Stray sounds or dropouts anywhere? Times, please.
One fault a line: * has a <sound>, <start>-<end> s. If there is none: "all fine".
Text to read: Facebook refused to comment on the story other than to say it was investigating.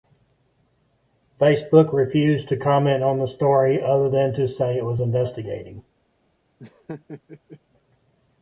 * has a laugh, 6.6-7.6 s